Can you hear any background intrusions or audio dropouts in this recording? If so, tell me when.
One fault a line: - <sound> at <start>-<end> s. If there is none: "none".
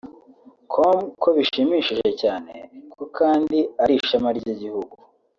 none